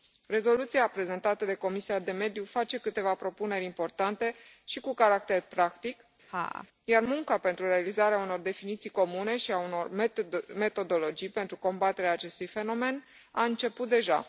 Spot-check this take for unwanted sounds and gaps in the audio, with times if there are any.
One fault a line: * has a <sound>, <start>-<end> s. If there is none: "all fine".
* has a laugh, 6.3-6.7 s